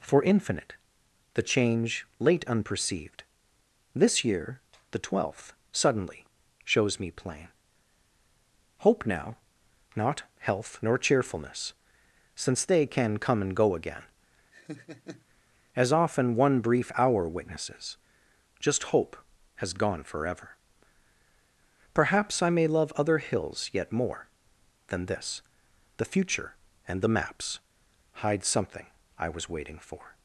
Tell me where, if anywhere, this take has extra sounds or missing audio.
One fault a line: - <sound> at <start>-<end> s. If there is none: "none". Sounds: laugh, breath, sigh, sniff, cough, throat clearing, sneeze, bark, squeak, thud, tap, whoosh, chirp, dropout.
- laugh at 14.5-15.3 s